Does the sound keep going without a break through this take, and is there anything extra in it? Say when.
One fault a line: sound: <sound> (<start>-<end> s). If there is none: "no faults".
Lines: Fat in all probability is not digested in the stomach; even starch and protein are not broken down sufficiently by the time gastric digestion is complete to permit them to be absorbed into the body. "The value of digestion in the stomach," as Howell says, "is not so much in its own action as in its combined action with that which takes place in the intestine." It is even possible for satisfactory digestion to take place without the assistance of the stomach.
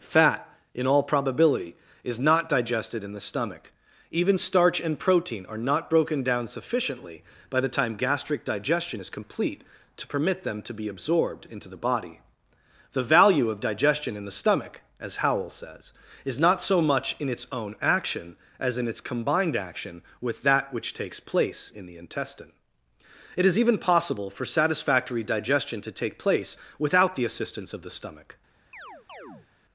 sound: chirp (28.7-29.5 s)